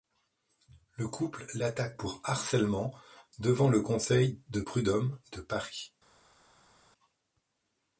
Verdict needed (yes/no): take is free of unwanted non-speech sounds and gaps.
yes